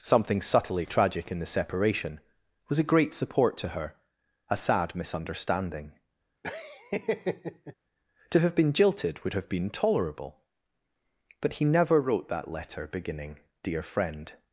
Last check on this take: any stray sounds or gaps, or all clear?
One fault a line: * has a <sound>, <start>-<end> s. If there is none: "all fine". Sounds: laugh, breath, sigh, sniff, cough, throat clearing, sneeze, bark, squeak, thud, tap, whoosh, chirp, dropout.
* has a laugh, 6.4-7.7 s